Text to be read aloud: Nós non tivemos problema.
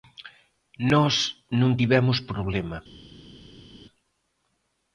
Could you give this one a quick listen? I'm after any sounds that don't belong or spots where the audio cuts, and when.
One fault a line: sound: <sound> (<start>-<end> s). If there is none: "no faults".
no faults